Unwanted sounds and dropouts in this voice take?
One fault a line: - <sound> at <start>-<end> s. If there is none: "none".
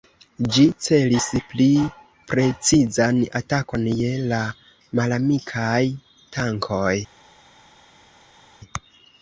none